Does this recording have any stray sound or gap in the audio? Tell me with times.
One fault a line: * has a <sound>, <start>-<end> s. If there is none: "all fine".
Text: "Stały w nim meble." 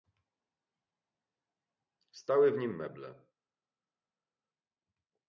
all fine